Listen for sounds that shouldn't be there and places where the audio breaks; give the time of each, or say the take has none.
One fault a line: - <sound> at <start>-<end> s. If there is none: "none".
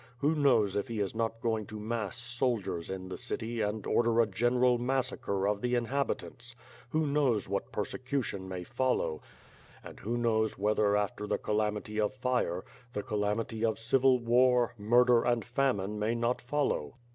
none